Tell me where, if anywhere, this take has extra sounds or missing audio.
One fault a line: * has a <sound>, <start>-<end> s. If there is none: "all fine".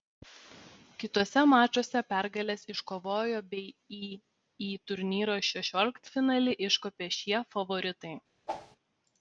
* has a whoosh, 8.5-8.8 s